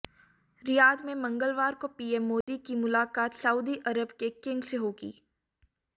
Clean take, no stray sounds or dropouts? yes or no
no